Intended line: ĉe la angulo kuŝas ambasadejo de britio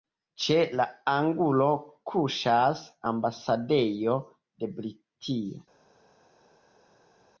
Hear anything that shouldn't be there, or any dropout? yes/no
no